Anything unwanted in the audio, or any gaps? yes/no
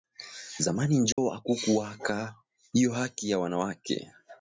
yes